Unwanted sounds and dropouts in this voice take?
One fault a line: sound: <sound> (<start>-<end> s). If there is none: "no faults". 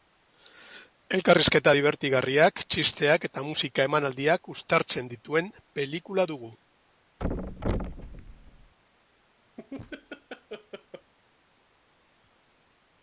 sound: thud (7.2-8.7 s)
sound: laugh (9.6-11.1 s)